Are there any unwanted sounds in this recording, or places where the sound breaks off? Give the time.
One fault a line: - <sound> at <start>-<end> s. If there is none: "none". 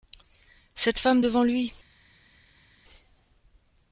none